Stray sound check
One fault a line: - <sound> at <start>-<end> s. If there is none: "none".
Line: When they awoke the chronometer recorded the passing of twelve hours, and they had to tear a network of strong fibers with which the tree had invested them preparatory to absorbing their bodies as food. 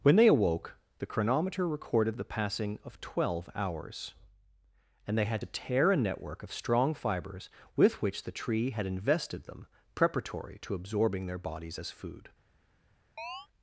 - chirp at 13.2-13.5 s